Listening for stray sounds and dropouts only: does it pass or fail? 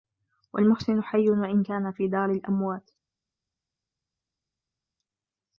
pass